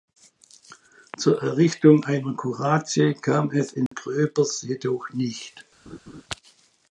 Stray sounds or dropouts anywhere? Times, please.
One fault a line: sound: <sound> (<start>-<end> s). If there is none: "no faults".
sound: dropout (3.9-3.9 s)
sound: laugh (5.9-6.2 s)